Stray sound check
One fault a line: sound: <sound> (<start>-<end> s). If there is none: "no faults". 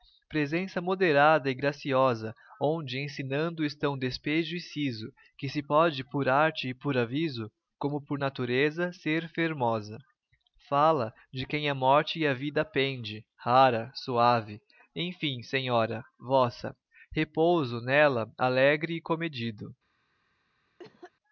sound: cough (20.8-21.1 s)